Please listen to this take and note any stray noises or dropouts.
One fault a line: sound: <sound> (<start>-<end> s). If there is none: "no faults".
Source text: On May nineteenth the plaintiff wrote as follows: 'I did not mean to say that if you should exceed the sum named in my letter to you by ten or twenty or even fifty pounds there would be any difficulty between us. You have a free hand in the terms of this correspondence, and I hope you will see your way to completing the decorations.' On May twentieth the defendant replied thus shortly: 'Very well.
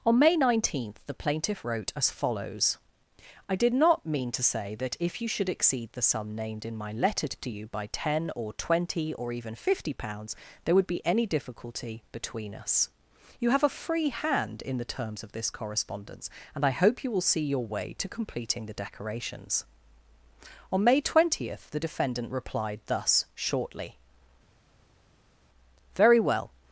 no faults